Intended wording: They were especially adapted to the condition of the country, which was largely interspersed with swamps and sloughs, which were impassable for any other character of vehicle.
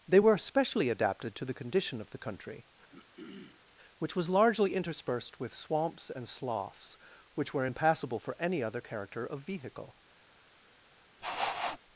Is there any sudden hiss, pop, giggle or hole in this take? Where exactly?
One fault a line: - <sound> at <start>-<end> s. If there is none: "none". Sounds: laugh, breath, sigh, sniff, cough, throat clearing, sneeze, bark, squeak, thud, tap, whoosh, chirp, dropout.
- throat clearing at 2.9-3.6 s
- sniff at 11.2-11.8 s